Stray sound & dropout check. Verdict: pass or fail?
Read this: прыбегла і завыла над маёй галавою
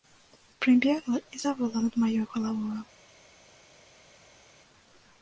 pass